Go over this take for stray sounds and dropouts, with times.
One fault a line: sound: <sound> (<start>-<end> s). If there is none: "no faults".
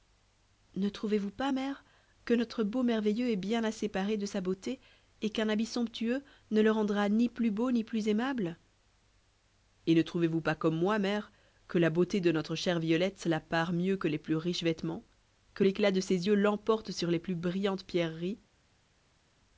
no faults